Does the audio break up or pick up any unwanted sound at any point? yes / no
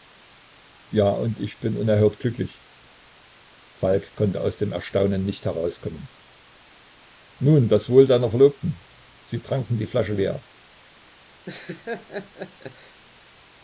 yes